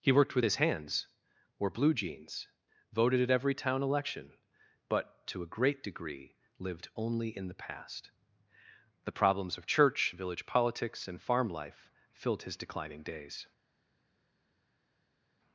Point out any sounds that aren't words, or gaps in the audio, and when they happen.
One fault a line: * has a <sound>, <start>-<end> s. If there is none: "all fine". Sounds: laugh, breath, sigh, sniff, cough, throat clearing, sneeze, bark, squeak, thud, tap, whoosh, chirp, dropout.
all fine